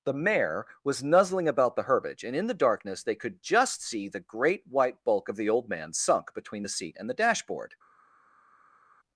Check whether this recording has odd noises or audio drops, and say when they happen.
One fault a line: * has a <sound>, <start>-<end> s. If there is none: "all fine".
all fine